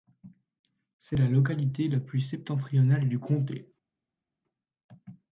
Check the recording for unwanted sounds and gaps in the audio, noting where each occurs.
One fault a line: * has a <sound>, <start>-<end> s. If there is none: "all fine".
all fine